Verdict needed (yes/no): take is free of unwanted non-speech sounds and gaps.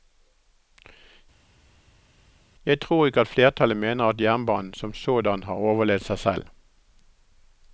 yes